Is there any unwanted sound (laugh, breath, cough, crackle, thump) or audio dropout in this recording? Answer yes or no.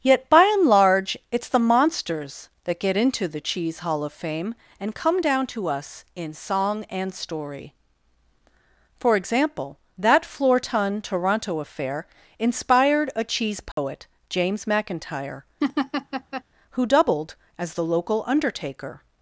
yes